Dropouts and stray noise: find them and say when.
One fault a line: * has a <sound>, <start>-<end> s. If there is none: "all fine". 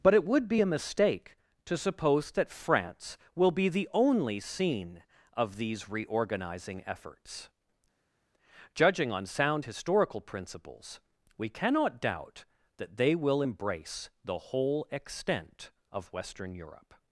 all fine